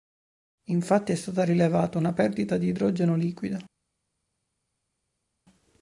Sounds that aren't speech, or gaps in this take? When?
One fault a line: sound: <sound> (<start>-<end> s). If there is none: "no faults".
no faults